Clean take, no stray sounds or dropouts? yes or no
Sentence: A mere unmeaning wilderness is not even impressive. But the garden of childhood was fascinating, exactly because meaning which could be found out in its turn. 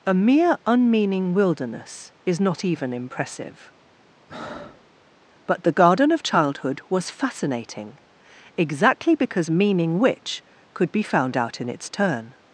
no